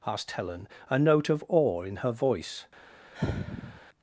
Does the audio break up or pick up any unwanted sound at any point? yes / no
yes